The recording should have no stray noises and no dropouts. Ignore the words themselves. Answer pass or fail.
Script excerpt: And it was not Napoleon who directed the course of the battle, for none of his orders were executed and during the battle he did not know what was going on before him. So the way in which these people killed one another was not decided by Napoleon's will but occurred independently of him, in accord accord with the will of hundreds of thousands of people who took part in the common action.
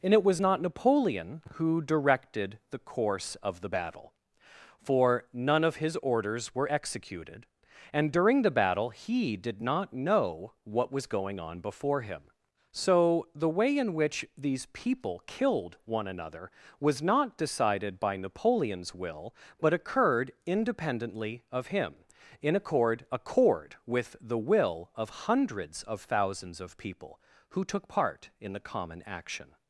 pass